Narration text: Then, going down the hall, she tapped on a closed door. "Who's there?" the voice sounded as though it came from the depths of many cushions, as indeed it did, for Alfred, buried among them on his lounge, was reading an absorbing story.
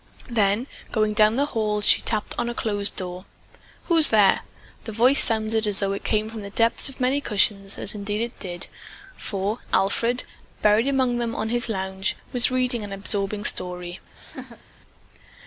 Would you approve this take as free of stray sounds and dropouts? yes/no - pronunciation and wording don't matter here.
no